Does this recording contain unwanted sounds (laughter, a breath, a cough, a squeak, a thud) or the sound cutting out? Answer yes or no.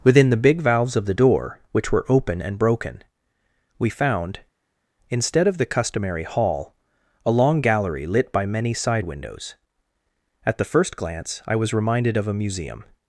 no